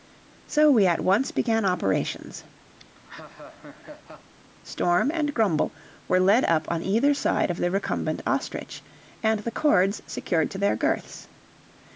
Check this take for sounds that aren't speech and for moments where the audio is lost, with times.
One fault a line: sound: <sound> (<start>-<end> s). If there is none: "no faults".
sound: laugh (2.8-4.3 s)